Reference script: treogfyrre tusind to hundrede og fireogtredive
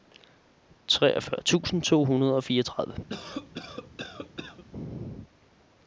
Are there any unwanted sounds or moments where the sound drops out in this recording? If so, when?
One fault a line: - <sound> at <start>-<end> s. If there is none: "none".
- cough at 3.1-4.6 s